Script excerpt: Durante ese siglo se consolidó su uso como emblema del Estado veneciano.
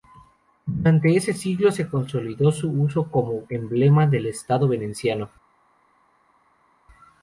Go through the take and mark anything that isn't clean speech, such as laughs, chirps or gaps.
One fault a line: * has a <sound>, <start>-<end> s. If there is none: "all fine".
all fine